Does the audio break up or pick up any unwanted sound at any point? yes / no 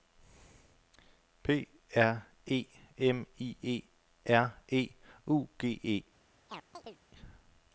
yes